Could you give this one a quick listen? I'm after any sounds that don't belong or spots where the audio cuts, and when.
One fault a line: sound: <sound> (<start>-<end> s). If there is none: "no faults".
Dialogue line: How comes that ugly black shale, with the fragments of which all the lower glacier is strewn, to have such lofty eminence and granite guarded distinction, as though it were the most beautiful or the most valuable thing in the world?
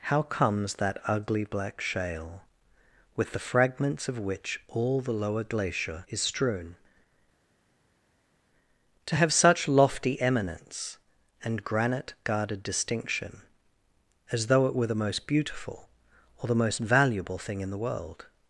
no faults